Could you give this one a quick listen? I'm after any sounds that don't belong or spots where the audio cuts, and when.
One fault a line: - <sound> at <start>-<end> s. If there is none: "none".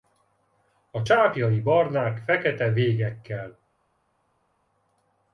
none